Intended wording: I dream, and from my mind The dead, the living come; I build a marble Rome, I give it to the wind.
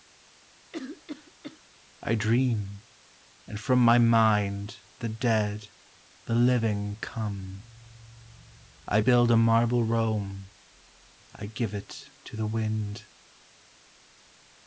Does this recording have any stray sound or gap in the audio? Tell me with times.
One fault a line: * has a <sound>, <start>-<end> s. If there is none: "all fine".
* has a cough, 0.7-1.6 s